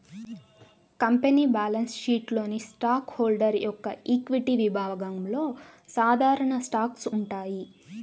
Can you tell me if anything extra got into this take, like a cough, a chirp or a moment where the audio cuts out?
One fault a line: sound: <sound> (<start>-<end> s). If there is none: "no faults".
no faults